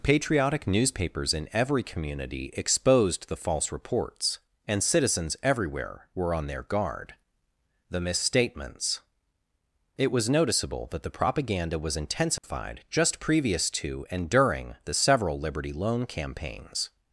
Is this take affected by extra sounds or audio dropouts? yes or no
yes